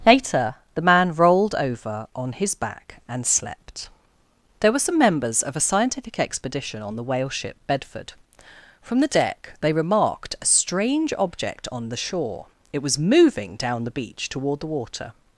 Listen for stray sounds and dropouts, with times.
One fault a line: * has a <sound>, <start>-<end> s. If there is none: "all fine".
all fine